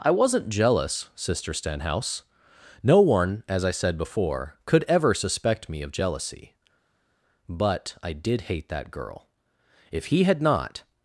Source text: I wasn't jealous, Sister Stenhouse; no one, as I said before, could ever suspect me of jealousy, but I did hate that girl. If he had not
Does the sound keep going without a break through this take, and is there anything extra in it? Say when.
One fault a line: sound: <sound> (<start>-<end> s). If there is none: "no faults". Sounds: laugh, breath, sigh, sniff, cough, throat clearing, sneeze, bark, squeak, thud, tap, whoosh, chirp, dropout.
no faults